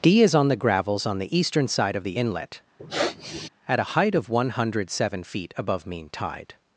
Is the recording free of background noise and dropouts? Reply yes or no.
no